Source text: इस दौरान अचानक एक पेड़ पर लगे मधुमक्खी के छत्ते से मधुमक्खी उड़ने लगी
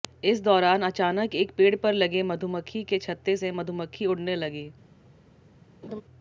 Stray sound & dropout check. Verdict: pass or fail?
fail